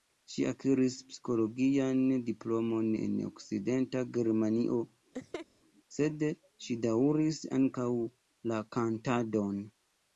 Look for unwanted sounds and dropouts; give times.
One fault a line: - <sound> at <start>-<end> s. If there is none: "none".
- laugh at 5.1-5.5 s